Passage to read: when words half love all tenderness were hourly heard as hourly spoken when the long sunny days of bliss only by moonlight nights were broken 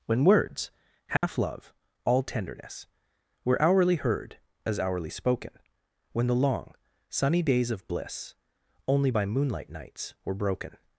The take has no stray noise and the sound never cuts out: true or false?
false